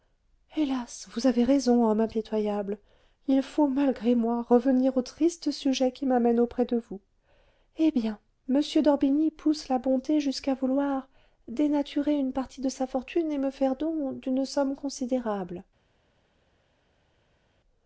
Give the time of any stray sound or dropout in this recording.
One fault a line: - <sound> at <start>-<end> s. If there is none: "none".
none